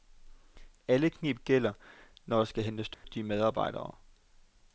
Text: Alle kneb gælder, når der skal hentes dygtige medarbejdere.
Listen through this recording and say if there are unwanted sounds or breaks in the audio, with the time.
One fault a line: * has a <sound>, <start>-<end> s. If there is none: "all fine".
* has a dropout, 2.9-3.0 s